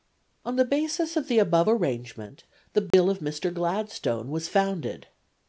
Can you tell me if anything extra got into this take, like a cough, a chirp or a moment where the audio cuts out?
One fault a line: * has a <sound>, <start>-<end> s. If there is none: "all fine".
* has a dropout, 2.9-2.9 s